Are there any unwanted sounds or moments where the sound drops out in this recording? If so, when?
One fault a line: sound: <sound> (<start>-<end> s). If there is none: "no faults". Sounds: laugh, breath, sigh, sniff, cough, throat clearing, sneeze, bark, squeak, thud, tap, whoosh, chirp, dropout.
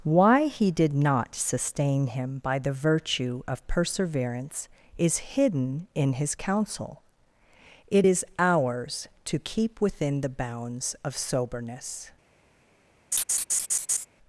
sound: laugh (13.1-14.1 s)